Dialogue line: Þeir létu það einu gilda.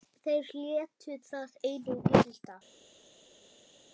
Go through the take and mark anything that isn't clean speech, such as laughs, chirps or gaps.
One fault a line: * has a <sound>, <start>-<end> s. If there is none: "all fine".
all fine